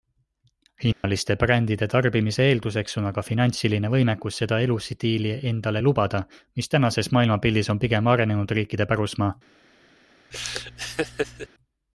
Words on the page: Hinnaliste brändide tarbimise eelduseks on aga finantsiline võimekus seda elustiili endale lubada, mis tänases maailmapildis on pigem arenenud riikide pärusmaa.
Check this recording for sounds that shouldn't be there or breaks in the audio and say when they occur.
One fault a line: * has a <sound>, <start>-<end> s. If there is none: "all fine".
* has a dropout, 0.9-1.0 s
* has a laugh, 10.3-11.5 s